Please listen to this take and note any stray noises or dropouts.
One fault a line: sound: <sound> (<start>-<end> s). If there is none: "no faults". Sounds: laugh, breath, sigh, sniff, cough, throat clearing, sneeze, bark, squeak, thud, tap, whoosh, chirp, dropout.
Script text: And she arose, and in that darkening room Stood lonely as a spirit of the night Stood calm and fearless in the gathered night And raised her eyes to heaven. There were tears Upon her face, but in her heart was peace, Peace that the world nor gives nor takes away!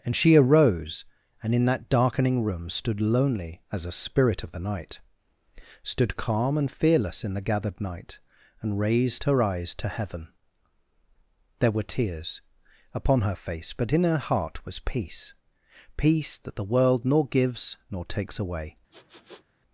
sound: sniff (18.9-19.4 s)